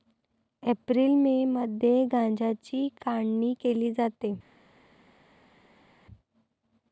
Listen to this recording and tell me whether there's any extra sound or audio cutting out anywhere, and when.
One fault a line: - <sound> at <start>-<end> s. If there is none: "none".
none